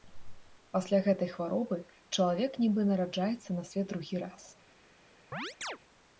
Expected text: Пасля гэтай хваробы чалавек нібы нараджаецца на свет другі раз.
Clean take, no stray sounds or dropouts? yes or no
no